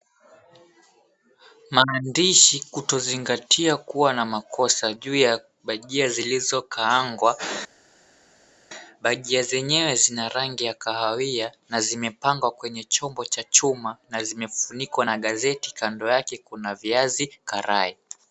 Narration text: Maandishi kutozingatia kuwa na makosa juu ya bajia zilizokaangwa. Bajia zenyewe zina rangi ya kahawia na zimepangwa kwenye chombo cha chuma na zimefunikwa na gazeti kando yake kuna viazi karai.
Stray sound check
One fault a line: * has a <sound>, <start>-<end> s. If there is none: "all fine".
all fine